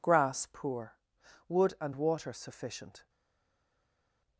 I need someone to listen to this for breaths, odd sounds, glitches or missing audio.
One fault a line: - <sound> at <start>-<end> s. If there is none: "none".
none